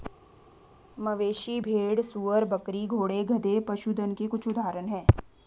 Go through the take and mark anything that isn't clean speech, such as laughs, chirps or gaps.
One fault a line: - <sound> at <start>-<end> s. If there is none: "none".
none